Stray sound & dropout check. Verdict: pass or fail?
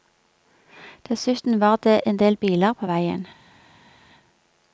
pass